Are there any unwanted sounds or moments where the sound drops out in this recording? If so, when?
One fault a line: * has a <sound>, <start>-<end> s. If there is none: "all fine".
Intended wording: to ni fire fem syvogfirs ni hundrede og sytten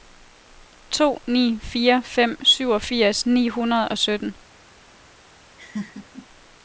* has a laugh, 5.6-6.3 s